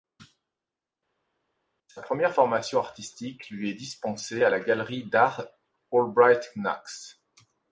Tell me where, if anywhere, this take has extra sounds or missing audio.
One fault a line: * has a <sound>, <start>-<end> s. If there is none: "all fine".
all fine